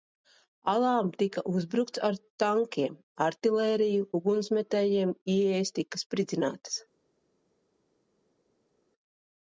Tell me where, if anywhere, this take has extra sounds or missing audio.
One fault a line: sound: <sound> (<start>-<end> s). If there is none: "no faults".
no faults